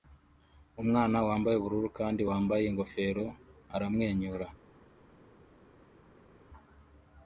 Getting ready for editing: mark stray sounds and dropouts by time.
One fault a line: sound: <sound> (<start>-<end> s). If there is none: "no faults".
no faults